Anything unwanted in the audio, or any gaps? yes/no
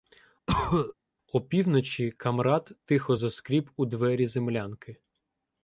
yes